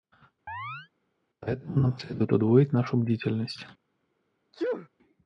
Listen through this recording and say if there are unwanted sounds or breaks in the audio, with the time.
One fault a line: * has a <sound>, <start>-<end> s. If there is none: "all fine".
* has a chirp, 0.5-0.9 s
* has a sneeze, 4.5-4.9 s